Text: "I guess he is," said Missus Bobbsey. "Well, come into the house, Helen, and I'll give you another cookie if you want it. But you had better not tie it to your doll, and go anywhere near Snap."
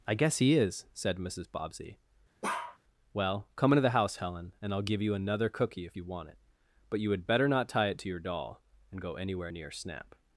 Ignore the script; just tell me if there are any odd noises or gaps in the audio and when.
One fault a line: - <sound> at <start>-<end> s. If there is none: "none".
- bark at 2.4-2.8 s